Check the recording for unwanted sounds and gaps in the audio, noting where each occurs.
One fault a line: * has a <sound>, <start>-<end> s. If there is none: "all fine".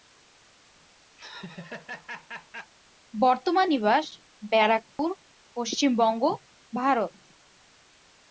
* has a laugh, 1.2-2.7 s
* has a dropout, 4.9-5.0 s